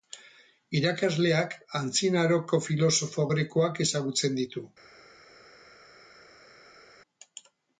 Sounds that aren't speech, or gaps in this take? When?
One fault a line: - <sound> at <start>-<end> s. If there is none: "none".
none